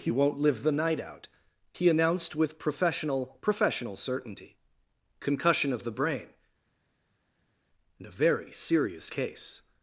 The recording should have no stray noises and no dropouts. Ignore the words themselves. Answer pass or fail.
pass